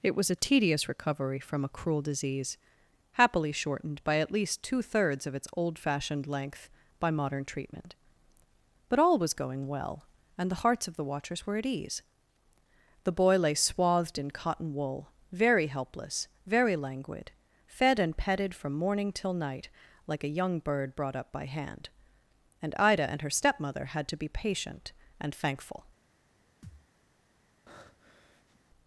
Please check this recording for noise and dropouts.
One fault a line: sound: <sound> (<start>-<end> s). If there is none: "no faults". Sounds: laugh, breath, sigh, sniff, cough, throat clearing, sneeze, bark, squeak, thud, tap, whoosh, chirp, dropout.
sound: thud (26.6-26.9 s)
sound: breath (27.7-28.6 s)